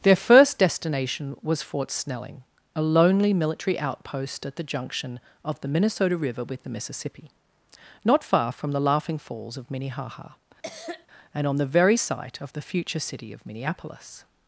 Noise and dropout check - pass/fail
fail